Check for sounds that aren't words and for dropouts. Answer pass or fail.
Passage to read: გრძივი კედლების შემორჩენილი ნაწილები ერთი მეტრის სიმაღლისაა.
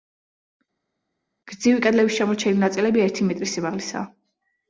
pass